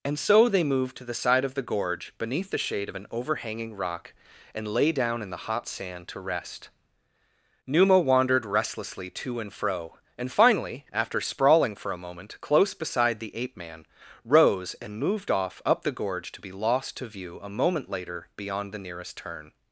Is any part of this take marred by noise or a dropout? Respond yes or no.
no